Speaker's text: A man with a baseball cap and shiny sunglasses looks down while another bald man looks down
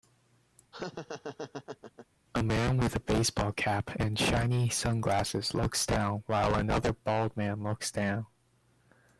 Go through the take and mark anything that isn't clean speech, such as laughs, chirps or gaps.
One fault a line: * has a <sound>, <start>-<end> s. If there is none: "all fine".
* has a laugh, 0.7-2.1 s